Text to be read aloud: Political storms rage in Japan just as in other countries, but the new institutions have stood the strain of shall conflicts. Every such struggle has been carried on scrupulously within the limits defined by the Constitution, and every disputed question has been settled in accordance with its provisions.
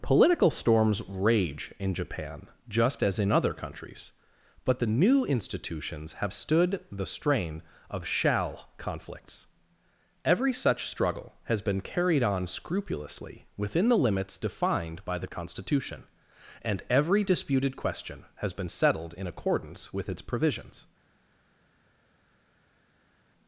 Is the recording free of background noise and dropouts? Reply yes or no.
yes